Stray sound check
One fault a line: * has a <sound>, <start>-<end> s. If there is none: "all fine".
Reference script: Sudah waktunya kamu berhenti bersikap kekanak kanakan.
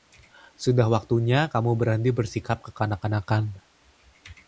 all fine